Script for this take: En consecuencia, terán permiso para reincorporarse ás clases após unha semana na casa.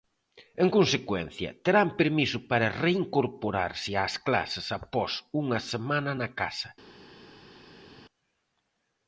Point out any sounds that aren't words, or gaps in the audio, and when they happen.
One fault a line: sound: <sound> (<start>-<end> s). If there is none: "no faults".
no faults